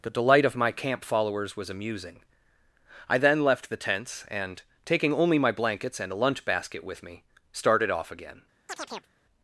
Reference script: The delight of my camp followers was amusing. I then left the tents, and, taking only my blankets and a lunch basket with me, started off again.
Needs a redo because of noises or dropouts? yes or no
yes